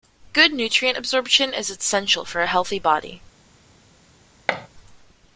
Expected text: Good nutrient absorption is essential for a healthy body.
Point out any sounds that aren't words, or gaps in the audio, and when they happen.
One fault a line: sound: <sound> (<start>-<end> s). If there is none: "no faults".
sound: thud (4.5-4.7 s)